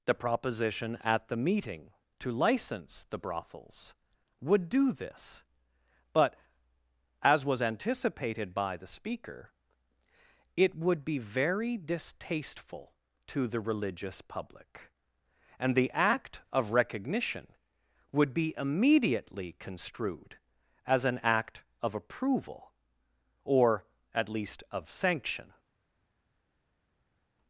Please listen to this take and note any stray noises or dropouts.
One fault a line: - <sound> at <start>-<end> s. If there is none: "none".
none